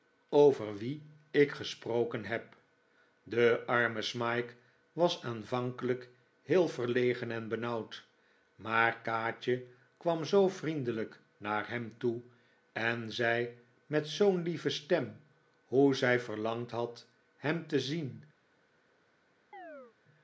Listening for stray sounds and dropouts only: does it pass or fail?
fail